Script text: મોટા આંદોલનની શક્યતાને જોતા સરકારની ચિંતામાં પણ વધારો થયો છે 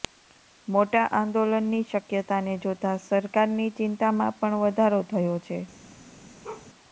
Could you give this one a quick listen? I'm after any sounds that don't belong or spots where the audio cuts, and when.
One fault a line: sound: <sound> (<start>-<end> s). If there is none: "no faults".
sound: bark (6.4-6.7 s)